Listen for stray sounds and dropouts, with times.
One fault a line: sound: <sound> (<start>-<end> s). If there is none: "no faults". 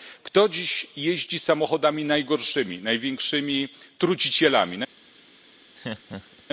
sound: laugh (5.7-6.4 s)